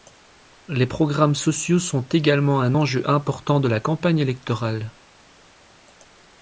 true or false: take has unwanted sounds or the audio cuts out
false